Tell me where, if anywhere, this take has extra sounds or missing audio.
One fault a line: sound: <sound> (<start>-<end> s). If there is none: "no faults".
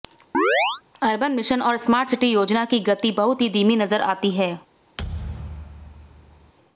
sound: chirp (0.3-0.8 s)
sound: thud (5.0-6.5 s)